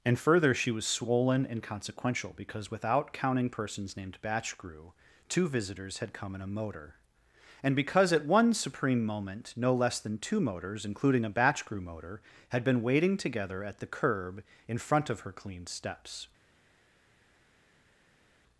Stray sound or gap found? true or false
false